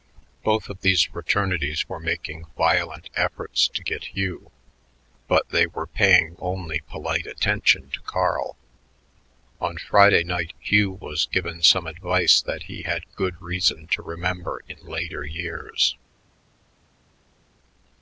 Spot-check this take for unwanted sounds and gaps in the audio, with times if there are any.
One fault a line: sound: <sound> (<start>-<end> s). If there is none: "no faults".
no faults